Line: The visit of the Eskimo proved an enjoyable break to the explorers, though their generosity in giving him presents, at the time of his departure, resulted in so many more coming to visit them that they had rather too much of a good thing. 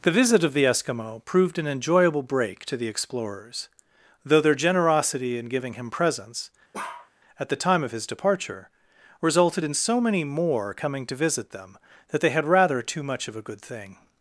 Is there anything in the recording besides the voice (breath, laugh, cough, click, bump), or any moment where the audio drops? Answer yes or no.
yes